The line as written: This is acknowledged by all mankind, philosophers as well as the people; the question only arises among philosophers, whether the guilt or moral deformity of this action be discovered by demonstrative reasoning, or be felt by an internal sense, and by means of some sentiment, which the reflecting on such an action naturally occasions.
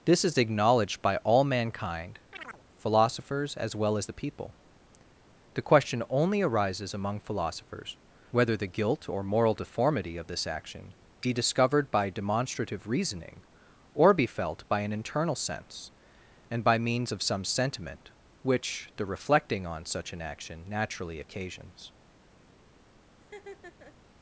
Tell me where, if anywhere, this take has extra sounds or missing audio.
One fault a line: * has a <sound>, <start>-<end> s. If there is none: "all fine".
* has a chirp, 2.3-2.6 s
* has a laugh, 23.2-24.0 s